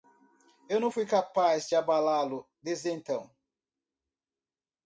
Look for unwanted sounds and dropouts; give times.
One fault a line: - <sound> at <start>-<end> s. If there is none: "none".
none